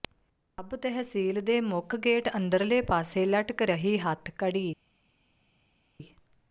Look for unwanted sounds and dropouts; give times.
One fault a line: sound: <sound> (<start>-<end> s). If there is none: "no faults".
no faults